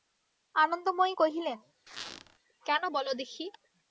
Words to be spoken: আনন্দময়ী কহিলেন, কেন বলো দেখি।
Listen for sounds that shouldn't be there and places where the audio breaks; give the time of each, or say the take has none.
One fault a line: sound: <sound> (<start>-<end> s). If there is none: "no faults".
sound: squeak (1.9-2.4 s)